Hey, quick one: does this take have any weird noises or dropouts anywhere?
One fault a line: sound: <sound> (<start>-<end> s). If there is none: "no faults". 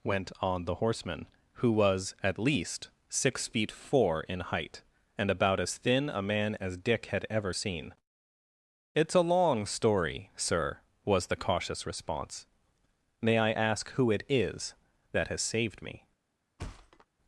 sound: thud (16.6-17.1 s)